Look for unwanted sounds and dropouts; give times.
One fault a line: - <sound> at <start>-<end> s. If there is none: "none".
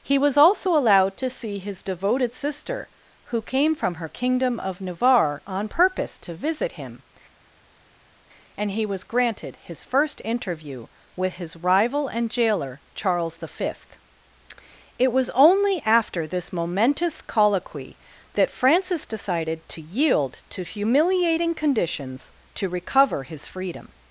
none